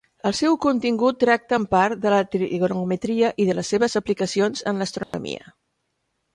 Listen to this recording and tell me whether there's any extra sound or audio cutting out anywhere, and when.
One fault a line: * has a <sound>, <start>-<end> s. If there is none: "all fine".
* has a dropout, 5.0-5.1 s